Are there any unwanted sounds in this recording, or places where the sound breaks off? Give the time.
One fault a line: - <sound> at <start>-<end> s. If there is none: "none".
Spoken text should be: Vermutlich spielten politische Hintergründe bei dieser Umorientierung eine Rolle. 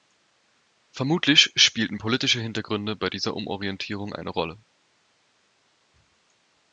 none